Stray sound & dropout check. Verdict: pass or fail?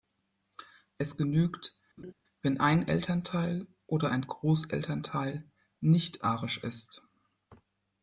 fail